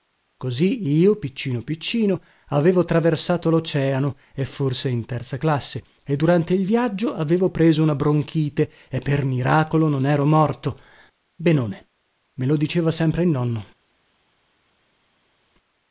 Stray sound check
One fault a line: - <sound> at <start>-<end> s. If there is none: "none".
none